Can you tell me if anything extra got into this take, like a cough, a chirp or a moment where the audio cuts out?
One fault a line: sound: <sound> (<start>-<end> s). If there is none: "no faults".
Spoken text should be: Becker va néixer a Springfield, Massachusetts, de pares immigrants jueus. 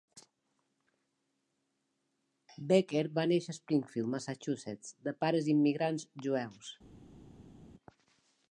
no faults